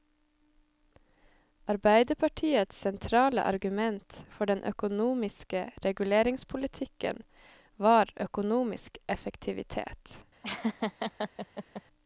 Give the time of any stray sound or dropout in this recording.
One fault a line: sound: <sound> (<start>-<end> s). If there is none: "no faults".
sound: laugh (10.4-11.8 s)